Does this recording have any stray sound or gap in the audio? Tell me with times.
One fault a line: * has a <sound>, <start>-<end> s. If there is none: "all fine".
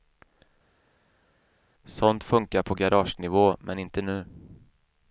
all fine